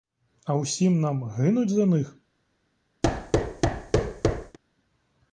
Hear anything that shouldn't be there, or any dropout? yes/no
yes